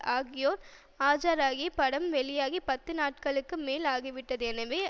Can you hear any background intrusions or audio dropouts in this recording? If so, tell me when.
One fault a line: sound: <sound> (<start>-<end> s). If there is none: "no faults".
no faults